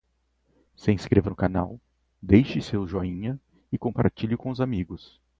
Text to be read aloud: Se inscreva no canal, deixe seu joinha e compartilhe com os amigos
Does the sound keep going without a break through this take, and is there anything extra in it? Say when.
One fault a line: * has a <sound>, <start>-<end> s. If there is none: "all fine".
all fine